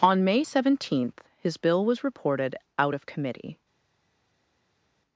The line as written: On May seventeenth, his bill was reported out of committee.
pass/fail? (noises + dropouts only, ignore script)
pass